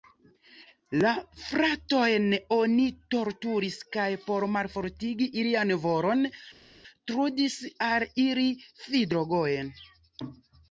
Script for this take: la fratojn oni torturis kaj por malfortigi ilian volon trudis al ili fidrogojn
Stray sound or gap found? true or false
false